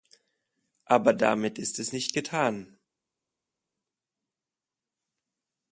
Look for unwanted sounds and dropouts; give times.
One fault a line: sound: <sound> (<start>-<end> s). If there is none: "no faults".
no faults